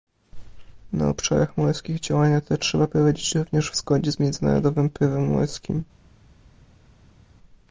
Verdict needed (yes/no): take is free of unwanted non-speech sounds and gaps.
yes